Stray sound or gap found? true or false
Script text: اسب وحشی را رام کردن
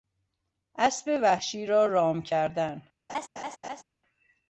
true